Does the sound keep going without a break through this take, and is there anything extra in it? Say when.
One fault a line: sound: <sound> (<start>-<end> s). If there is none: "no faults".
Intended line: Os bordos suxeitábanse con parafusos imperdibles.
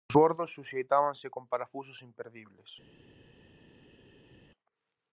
no faults